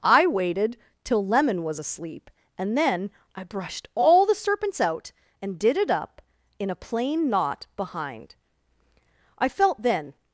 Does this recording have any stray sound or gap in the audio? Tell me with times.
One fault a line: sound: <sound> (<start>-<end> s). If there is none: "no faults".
no faults